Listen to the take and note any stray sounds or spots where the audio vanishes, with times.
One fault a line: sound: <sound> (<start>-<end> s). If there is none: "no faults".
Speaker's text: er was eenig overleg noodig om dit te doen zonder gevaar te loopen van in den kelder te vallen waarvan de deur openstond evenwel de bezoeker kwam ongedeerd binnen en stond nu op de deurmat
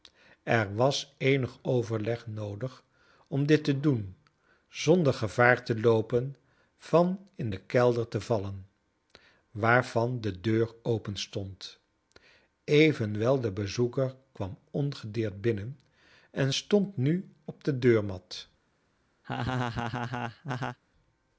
sound: laugh (19.2-20.8 s)